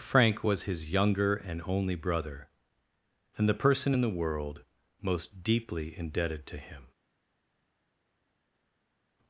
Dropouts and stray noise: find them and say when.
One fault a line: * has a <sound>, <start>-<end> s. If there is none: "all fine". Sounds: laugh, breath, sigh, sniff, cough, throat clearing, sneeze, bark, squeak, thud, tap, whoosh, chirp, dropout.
all fine